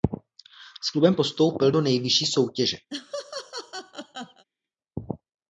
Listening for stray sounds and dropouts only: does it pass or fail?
fail